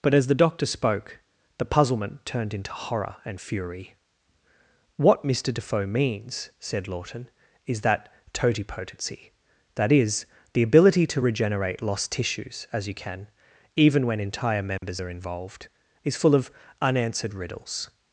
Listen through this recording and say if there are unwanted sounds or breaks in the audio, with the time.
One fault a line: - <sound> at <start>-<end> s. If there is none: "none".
- dropout at 14.8-14.8 s